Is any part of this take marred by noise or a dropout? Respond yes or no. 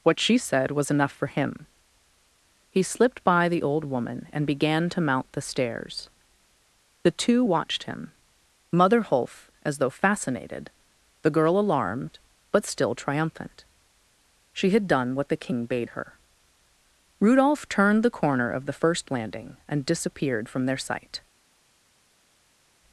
no